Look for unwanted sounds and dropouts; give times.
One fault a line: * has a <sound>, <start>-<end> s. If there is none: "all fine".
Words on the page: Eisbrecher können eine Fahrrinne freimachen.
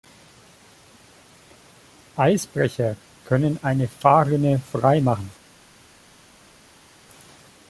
all fine